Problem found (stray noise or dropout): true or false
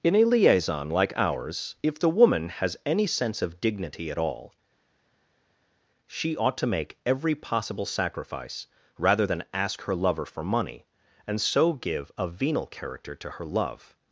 false